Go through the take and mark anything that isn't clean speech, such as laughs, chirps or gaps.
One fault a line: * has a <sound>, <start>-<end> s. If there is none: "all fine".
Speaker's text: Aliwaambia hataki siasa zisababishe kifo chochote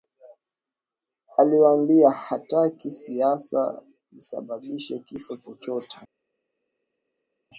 all fine